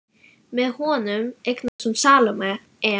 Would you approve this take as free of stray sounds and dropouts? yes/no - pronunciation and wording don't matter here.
no